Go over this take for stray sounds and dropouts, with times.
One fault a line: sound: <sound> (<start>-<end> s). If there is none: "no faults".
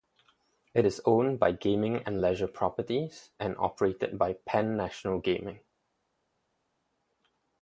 no faults